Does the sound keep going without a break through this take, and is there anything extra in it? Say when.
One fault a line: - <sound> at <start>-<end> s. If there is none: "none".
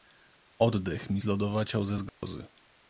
- dropout at 2.1-2.2 s